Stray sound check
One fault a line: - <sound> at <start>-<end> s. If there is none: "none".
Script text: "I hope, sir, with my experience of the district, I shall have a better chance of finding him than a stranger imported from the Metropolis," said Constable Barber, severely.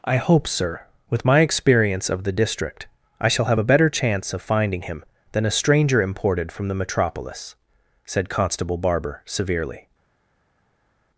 none